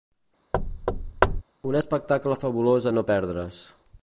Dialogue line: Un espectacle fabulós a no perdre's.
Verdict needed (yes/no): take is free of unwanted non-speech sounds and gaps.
no